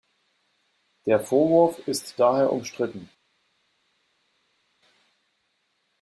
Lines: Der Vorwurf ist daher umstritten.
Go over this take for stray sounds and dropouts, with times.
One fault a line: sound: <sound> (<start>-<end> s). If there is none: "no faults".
no faults